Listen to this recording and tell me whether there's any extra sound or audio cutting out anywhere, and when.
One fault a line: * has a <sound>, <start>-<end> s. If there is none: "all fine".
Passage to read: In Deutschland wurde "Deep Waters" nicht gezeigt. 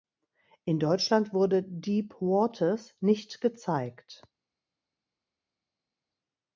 all fine